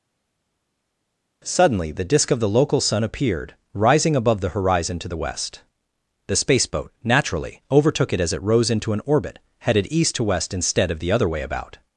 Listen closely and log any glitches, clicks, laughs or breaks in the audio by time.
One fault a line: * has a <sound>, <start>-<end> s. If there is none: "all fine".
all fine